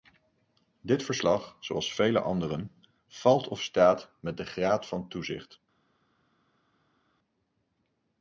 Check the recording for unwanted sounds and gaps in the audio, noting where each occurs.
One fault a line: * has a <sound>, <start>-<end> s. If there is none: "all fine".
all fine